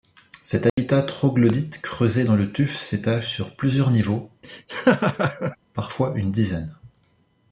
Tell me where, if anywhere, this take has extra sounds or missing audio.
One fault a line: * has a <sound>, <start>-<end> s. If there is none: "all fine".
* has a dropout, 0.7-0.8 s
* has a laugh, 4.4-5.6 s